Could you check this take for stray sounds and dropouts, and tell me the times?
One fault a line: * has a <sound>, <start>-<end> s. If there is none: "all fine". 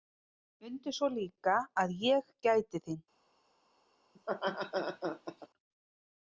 * has a laugh, 4.1-5.5 s